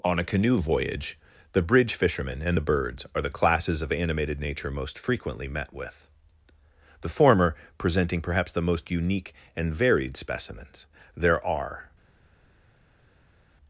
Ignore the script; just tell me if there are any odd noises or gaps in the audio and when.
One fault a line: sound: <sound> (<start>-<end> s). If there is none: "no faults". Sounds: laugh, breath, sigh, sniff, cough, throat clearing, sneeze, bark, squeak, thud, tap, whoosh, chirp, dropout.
no faults